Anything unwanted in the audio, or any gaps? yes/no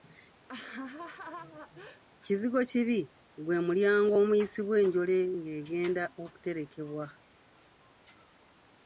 yes